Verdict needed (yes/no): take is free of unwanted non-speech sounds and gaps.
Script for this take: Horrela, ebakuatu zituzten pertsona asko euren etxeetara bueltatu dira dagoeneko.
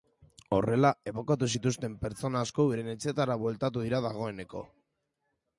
yes